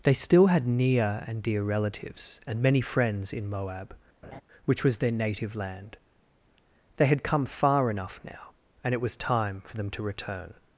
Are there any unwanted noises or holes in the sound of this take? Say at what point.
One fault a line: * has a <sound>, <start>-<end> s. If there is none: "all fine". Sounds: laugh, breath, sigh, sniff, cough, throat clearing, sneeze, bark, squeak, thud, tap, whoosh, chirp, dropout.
* has a laugh, 4.2-4.4 s